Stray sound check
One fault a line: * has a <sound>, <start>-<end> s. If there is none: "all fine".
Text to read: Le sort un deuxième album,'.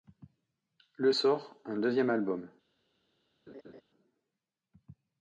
* has a laugh, 3.5-3.8 s